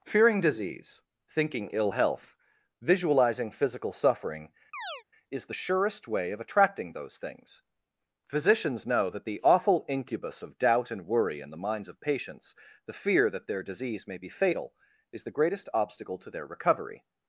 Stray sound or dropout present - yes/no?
yes